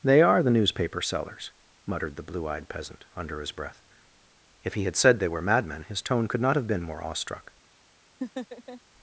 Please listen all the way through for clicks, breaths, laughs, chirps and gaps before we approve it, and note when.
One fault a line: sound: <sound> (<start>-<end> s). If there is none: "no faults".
sound: laugh (8.2-8.8 s)